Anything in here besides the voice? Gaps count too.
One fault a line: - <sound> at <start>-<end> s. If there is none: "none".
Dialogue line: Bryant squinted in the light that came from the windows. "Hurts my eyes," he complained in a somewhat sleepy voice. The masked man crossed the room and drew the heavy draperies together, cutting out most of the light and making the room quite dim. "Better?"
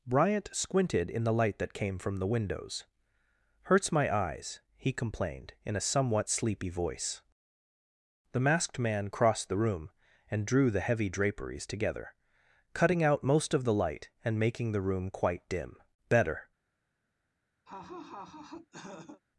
- laugh at 17.7-19.2 s